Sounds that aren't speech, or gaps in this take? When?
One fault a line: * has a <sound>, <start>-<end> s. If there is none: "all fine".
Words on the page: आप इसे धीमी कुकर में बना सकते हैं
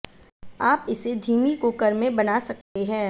* has a dropout, 2.6-2.8 s